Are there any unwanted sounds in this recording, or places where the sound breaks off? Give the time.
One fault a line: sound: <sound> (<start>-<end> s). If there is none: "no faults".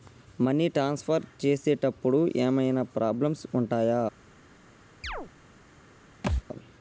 sound: chirp (5.0-5.3 s)
sound: thud (6.2-6.4 s)